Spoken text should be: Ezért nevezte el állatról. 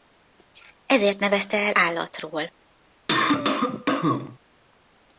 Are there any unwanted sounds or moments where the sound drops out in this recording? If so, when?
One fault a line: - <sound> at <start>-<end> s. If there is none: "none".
- cough at 3.1-4.4 s